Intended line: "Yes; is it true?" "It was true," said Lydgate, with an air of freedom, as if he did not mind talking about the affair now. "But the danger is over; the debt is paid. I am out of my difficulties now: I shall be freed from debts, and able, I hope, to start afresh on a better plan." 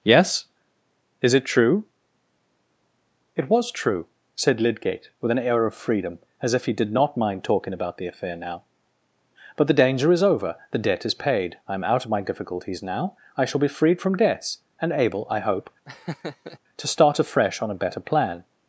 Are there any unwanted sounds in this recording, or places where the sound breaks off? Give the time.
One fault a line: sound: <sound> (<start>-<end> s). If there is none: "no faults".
sound: laugh (15.9-16.6 s)